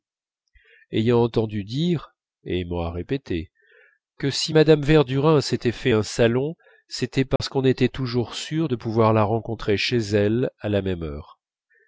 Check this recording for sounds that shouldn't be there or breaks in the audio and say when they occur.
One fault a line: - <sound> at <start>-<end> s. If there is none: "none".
- dropout at 7.4-7.4 s